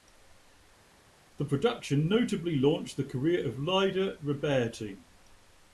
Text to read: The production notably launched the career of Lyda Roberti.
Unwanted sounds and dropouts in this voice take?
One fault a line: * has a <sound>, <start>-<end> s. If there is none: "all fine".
all fine